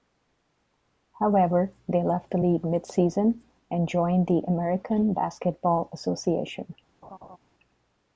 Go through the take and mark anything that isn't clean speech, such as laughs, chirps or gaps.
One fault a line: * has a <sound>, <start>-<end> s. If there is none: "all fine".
* has a laugh, 7.0-7.4 s